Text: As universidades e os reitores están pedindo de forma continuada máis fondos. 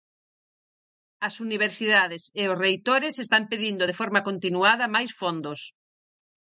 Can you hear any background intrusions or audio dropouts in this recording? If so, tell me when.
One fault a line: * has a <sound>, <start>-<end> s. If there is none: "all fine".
all fine